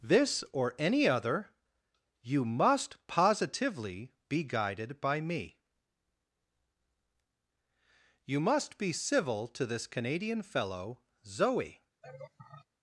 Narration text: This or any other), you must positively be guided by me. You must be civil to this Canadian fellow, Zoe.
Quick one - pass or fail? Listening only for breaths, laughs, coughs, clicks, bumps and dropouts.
fail